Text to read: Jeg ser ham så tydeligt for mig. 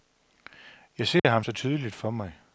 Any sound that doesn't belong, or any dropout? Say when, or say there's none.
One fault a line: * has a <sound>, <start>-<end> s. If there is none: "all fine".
* has a dropout, 1.2-1.2 s